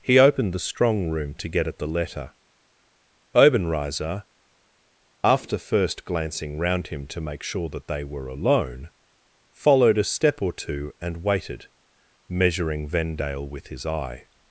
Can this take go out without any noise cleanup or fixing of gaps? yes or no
yes